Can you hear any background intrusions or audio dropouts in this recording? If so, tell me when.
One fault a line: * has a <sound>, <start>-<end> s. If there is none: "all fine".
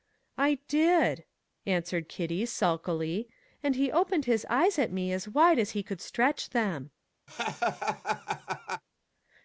* has a laugh, 7.3-8.8 s